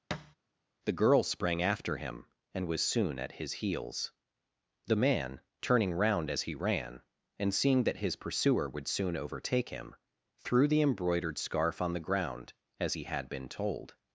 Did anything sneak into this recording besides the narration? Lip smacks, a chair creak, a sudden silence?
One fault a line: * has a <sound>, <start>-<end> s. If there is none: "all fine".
* has a thud, 0.1-0.4 s